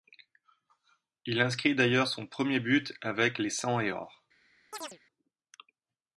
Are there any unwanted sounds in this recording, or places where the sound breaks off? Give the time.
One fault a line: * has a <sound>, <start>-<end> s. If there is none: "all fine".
* has a chirp, 4.7-5.0 s